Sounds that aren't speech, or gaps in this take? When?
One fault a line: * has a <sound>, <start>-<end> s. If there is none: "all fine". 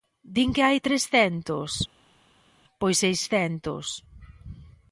all fine